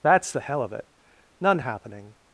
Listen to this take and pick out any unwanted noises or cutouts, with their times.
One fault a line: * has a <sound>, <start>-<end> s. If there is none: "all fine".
all fine